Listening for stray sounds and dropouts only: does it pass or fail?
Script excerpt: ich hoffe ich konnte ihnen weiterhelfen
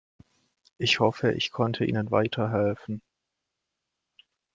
pass